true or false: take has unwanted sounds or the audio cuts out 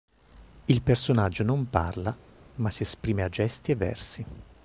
false